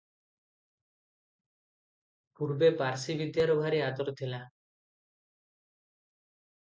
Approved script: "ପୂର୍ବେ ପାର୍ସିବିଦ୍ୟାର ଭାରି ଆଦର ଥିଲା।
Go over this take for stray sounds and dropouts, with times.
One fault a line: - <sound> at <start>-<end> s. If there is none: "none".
none